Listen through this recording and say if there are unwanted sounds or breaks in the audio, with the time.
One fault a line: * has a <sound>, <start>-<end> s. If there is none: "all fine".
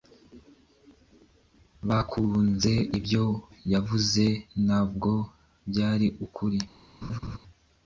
* has a laugh, 7.0-7.4 s